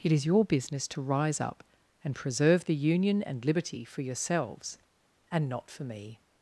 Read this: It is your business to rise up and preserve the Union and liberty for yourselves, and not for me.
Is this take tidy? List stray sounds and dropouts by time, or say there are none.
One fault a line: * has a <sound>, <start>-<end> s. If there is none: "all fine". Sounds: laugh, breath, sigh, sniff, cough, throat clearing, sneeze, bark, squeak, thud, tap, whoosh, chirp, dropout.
all fine